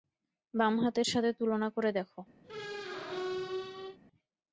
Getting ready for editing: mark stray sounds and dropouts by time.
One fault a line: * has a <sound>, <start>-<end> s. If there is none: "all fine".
* has a squeak, 2.4-4.0 s